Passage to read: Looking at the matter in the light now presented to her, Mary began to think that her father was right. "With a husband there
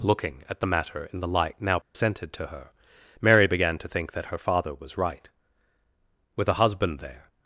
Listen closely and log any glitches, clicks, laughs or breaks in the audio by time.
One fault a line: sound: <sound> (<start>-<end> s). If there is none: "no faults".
sound: dropout (1.8-1.9 s)